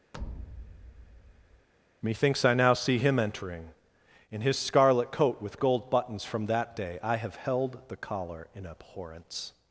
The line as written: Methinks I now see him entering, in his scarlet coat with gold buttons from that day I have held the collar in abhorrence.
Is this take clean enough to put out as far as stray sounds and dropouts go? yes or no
no